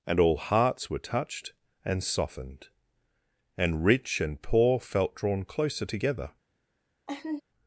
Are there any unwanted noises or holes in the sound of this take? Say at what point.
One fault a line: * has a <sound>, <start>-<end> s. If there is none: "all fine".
* has a laugh, 7.1-7.4 s